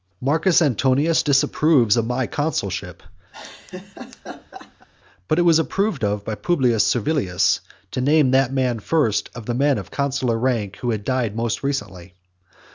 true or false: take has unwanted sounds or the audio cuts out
true